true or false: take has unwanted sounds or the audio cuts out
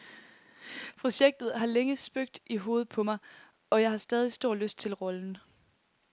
false